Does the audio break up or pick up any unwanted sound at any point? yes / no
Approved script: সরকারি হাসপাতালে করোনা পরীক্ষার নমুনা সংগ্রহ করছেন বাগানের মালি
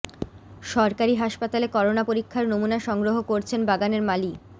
no